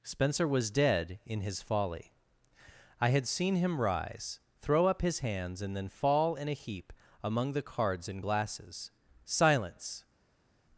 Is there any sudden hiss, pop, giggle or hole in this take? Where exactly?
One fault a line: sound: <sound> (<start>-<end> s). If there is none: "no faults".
no faults